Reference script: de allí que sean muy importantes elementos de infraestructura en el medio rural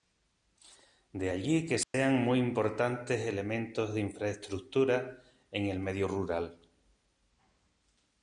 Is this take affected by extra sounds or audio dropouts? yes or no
yes